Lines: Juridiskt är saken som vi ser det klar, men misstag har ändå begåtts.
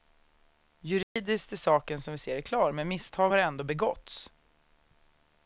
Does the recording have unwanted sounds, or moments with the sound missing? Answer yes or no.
yes